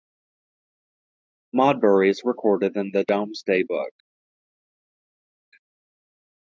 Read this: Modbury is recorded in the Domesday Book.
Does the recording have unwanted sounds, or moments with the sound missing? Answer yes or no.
no